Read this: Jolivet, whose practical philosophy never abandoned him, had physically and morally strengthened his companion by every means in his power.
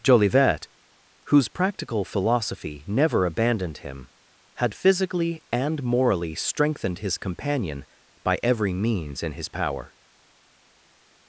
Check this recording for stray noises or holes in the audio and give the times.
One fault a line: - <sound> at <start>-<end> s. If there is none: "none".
none